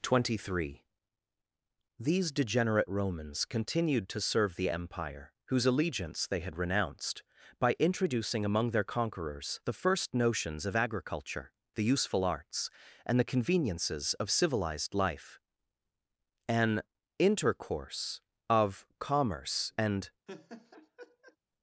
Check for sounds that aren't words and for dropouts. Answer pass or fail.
fail